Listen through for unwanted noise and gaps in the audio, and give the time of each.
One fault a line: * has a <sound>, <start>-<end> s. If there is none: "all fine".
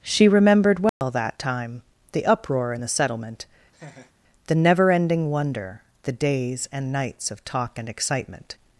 * has a dropout, 0.9-1.0 s
* has a laugh, 3.7-4.1 s